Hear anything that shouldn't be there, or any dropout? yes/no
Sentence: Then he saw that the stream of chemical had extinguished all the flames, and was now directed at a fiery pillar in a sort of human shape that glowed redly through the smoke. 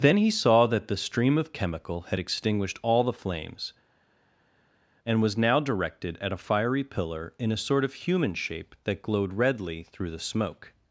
no